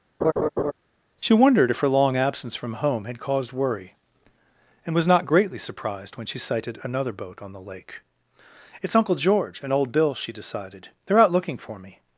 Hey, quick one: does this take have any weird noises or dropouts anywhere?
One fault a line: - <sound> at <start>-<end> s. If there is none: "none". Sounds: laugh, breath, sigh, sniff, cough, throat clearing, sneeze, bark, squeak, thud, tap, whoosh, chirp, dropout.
- laugh at 0.2-0.7 s